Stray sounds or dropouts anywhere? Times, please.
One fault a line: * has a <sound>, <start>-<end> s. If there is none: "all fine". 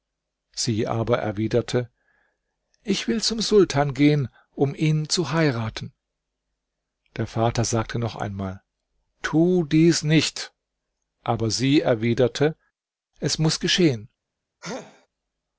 * has a sneeze, 14.6-15.1 s